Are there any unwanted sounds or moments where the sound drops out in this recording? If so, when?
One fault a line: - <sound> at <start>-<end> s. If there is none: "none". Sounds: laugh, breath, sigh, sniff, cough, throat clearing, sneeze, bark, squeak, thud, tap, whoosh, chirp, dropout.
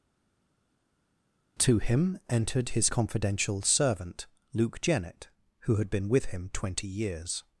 none